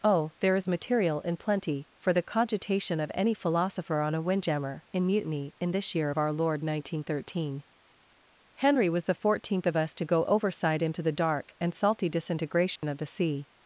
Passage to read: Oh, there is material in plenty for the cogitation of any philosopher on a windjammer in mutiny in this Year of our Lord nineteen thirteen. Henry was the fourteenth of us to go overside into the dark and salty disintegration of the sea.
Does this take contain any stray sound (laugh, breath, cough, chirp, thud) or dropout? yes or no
yes